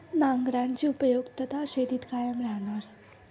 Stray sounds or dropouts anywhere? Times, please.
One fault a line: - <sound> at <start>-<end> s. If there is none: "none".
none